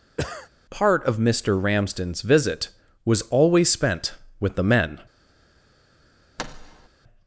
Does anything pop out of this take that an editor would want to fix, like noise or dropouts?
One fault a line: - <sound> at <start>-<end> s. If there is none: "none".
- cough at 0.2-0.5 s
- thud at 6.4-6.9 s